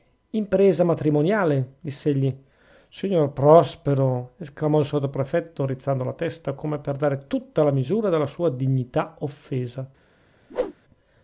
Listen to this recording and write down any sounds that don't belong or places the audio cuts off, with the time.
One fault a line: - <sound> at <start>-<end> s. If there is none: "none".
- whoosh at 10.5-10.7 s